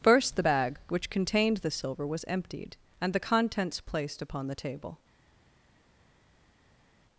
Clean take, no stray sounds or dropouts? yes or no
yes